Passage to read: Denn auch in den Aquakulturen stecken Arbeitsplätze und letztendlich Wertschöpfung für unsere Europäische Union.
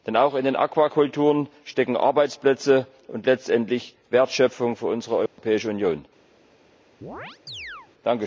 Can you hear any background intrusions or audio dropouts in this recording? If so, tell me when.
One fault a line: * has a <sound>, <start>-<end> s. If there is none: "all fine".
* has a dropout, 5.3-5.4 s
* has a chirp, 7.0-7.9 s